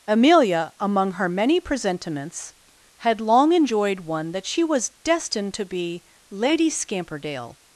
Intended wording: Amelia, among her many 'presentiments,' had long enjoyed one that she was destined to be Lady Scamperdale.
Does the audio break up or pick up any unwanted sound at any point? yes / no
no